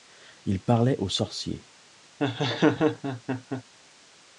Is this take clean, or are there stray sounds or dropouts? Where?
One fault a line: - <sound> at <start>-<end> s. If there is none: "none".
- laugh at 2.2-3.6 s